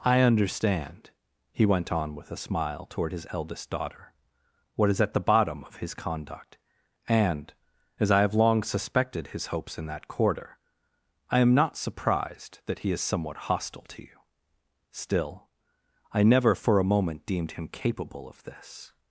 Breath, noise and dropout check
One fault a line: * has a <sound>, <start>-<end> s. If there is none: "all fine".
all fine